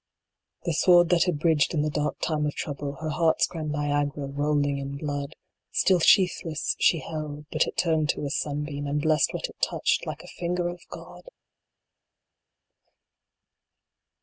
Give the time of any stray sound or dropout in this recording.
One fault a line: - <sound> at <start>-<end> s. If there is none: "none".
none